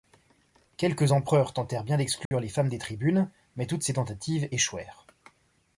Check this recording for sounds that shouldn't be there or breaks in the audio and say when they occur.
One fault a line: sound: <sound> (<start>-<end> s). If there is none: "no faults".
sound: dropout (2.3-2.3 s)